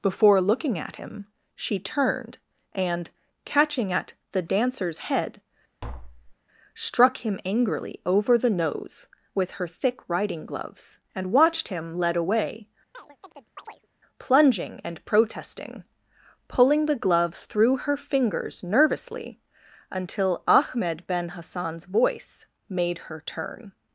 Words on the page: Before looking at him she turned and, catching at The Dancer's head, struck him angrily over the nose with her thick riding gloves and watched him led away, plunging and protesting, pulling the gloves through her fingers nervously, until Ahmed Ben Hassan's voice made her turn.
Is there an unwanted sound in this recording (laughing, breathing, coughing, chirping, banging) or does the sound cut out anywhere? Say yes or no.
yes